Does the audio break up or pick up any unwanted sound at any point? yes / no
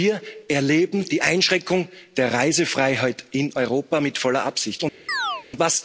yes